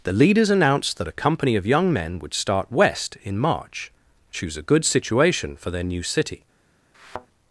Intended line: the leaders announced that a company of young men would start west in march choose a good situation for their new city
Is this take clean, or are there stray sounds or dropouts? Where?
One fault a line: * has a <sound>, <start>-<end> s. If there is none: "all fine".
* has a thud, 6.9-7.3 s